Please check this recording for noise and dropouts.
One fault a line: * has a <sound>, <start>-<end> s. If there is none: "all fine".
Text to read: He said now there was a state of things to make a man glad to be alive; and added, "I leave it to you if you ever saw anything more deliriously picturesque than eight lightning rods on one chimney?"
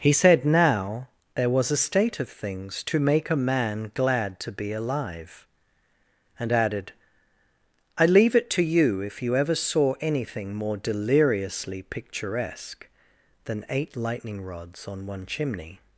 all fine